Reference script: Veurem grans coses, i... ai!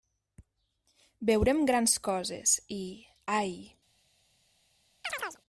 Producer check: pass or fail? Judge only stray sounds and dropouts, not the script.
fail